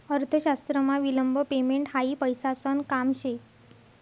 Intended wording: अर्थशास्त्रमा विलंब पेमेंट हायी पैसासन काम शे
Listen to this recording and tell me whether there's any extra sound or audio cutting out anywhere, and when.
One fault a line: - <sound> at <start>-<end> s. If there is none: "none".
none